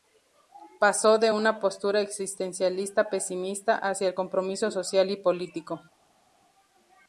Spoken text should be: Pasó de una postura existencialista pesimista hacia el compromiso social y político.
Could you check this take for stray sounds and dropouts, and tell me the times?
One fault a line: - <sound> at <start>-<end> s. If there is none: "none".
none